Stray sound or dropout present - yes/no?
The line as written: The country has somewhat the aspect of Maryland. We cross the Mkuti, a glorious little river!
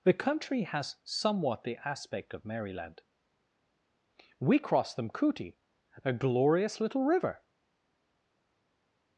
no